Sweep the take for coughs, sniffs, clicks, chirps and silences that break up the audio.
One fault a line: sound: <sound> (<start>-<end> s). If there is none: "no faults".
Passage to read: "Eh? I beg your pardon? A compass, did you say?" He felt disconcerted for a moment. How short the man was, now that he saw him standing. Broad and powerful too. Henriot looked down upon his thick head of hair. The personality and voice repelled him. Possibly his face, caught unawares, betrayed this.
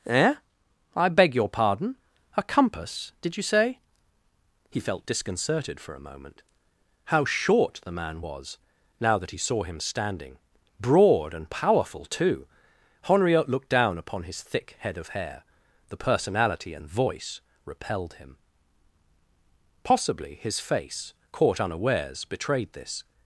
no faults